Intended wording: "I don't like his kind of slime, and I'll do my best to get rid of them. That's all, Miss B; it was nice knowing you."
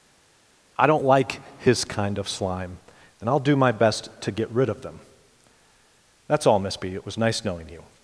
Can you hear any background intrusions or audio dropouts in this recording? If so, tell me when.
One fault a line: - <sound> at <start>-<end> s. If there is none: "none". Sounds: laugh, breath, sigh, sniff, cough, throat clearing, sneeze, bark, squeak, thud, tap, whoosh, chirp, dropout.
none